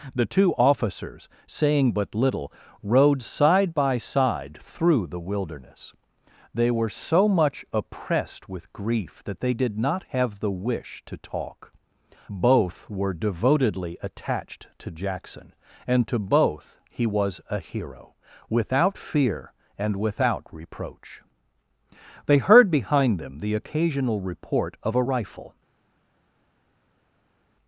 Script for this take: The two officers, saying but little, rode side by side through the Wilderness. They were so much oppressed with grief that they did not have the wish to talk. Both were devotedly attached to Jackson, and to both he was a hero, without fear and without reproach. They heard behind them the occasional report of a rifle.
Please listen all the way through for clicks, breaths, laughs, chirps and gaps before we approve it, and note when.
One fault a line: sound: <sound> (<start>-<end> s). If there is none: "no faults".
no faults